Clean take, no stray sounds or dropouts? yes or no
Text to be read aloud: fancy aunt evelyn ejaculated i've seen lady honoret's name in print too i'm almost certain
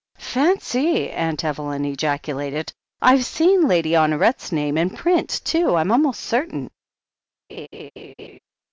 no